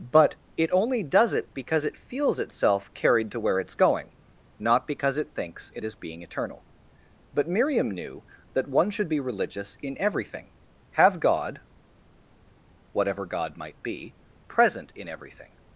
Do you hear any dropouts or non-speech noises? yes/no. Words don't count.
no